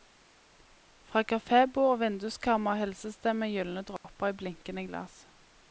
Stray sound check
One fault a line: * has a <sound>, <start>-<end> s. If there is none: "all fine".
* has a dropout, 4.0-4.0 s